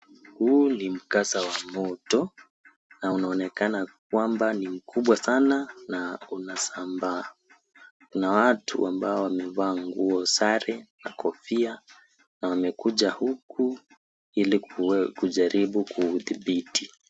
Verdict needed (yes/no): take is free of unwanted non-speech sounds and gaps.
yes